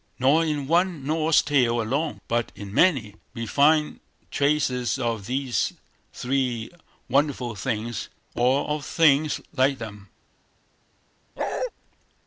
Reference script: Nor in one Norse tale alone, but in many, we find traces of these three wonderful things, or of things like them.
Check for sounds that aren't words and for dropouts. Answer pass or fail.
fail